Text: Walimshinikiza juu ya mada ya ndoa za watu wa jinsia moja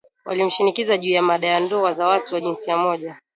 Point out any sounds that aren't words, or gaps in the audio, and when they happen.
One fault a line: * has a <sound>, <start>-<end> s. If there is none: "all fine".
all fine